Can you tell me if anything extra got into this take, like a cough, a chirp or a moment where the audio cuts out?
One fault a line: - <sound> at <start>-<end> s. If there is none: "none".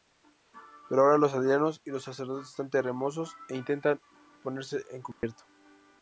- dropout at 5.1-5.2 s